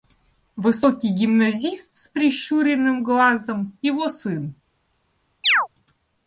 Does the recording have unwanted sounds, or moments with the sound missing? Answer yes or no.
yes